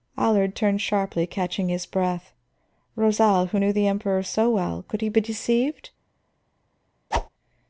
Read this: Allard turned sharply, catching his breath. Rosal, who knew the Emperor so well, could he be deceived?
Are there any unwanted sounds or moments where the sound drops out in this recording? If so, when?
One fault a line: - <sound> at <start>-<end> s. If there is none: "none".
- whoosh at 7.1-7.3 s